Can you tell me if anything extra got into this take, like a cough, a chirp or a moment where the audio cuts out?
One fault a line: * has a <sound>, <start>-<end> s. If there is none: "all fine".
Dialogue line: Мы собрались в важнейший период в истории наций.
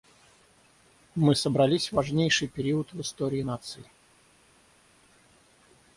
all fine